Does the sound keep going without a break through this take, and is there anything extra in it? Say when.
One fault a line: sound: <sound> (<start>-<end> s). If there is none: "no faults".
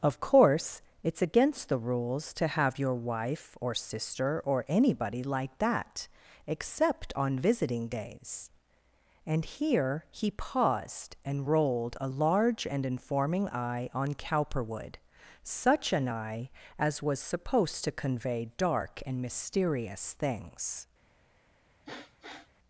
sound: sniff (21.8-22.5 s)